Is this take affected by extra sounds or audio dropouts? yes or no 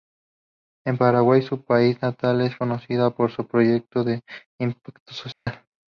yes